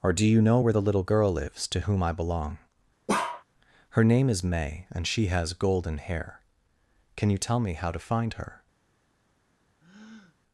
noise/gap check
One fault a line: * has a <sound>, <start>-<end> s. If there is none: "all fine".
* has a bark, 3.1-3.4 s
* has a breath, 9.8-10.4 s